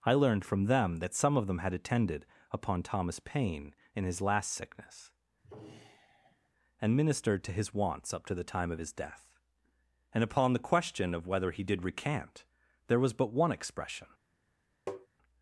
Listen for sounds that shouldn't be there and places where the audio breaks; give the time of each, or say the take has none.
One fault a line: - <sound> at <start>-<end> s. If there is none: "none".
- sigh at 5.4-6.5 s
- tap at 14.9-15.1 s